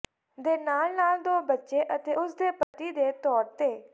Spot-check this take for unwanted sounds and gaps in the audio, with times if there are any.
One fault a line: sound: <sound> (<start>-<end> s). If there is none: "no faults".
sound: dropout (2.6-2.7 s)